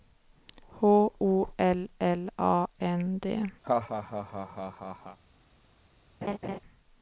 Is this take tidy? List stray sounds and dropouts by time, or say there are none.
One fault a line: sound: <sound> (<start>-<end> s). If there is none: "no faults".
sound: laugh (3.6-5.2 s)
sound: laugh (6.2-6.6 s)